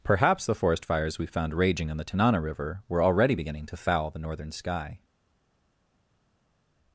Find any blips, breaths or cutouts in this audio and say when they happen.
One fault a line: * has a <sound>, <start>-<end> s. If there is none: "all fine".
all fine